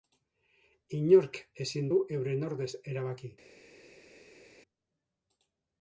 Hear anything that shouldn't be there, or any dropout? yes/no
no